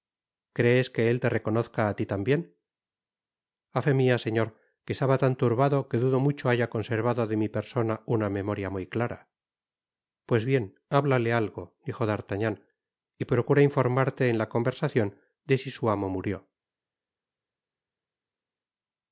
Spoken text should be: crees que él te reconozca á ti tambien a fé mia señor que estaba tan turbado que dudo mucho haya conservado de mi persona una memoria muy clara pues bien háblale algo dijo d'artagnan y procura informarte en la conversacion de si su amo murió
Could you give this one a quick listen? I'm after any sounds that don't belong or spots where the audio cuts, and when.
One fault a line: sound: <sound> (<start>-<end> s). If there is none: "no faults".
no faults